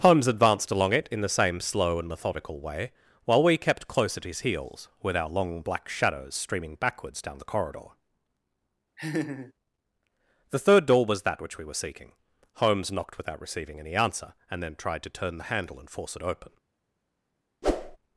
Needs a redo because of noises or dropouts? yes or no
yes